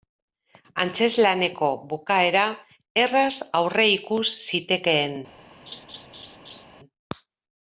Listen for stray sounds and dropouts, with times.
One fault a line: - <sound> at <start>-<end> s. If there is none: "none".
- laugh at 5.7-6.7 s